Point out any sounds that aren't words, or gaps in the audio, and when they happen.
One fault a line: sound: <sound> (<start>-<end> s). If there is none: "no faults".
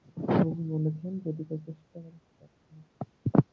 no faults